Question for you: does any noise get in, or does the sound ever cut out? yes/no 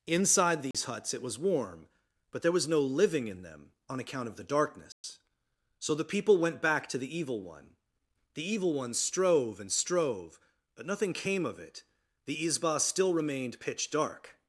yes